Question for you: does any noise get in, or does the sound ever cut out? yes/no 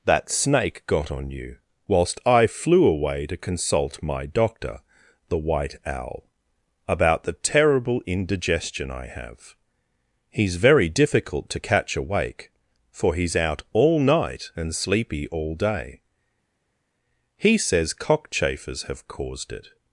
no